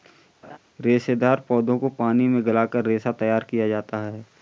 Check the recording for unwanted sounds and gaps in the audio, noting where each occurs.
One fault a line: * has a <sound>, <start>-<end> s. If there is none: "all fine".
* has a laugh, 0.4-0.6 s